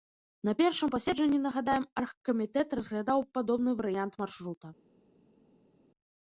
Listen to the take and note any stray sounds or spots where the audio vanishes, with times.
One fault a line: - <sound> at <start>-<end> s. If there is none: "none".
none